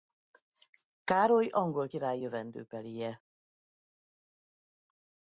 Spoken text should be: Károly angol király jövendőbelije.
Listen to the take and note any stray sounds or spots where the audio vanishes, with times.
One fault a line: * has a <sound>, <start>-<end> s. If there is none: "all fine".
all fine